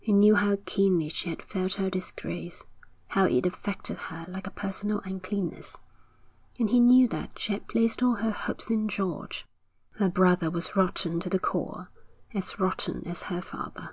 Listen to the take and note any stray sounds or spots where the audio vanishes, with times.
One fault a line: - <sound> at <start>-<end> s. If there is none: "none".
none